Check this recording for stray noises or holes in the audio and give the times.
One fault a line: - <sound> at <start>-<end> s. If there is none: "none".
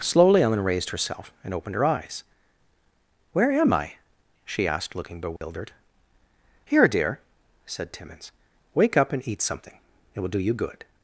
- dropout at 5.4-5.4 s